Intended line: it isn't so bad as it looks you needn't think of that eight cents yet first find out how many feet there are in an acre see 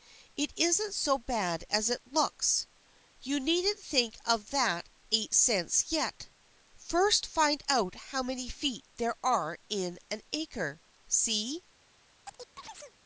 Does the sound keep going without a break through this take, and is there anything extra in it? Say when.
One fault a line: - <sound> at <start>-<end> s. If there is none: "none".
- chirp at 12.2-13.0 s